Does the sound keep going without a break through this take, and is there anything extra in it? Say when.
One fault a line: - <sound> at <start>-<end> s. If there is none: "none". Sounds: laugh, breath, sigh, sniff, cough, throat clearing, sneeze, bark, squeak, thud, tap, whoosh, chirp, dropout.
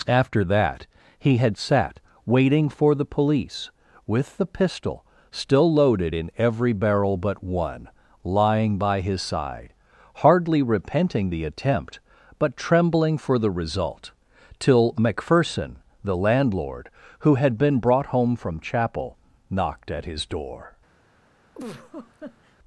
- laugh at 21.5-22.6 s